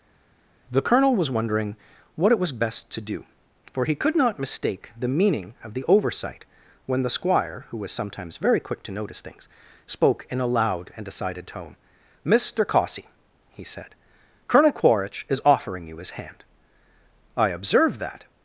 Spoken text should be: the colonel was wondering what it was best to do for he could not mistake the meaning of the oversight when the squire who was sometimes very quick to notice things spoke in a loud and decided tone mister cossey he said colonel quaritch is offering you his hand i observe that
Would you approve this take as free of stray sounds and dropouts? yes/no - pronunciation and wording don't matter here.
yes